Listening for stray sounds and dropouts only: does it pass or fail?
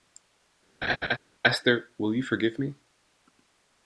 fail